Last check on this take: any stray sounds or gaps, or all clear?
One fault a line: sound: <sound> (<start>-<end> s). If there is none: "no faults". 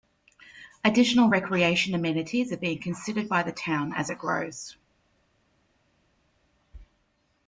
no faults